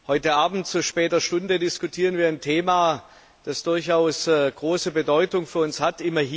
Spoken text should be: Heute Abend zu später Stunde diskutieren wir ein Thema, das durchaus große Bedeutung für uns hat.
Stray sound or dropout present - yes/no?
no